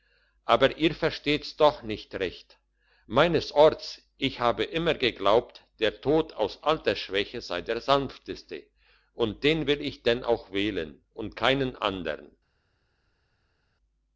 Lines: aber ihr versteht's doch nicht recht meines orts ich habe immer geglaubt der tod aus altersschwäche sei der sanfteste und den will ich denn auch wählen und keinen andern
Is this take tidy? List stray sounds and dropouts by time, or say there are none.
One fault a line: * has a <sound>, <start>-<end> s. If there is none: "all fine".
all fine